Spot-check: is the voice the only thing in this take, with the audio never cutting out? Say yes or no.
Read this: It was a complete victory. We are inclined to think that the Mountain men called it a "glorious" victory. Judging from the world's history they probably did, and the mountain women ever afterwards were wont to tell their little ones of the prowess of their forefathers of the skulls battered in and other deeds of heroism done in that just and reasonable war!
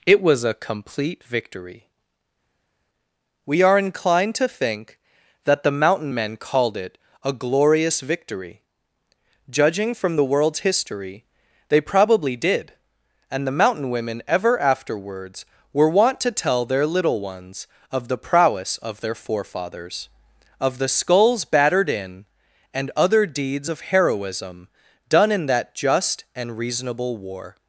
yes